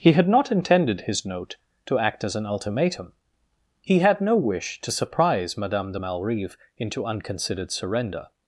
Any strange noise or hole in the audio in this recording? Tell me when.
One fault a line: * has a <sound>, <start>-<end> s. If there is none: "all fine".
all fine